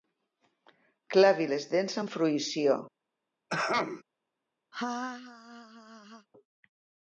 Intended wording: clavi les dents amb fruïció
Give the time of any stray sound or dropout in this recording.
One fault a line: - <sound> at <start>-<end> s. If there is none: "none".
- throat clearing at 3.5-4.0 s
- laugh at 4.7-6.3 s